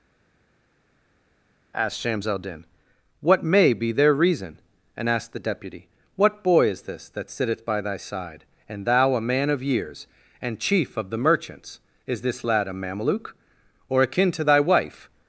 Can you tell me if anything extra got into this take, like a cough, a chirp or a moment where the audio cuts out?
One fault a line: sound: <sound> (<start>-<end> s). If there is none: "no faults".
no faults